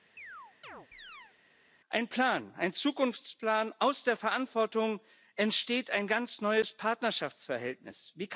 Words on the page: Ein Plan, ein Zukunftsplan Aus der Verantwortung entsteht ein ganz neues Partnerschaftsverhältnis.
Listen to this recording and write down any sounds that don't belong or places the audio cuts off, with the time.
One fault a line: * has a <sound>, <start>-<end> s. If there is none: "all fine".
* has a chirp, 0.2-1.4 s